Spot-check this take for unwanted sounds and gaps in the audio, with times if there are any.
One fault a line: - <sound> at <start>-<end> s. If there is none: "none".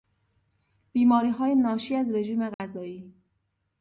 - dropout at 2.5-2.6 s